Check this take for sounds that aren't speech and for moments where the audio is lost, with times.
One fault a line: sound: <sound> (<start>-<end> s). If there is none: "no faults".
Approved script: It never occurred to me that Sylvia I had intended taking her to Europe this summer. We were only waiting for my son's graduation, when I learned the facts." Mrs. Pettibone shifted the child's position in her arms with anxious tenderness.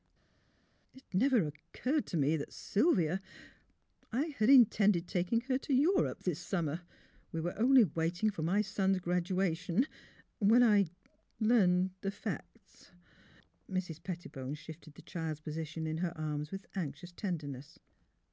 no faults